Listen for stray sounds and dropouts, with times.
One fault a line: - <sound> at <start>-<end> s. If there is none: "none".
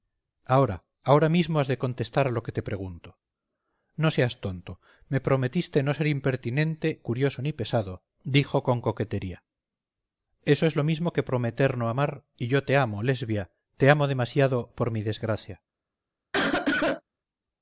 - cough at 16.3-17.0 s